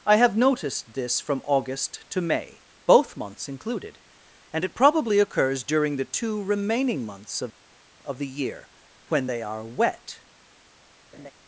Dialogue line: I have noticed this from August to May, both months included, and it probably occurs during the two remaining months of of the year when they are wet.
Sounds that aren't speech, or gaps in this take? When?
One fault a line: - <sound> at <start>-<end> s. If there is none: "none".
- laugh at 11.1-11.3 s